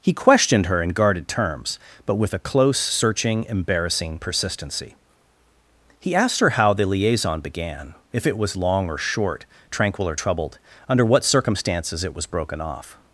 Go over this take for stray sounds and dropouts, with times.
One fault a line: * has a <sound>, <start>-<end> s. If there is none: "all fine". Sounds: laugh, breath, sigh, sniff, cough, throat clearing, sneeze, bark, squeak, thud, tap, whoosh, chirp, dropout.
all fine